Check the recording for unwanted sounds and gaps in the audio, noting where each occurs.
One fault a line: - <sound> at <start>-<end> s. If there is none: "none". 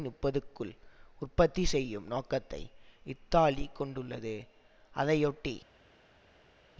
none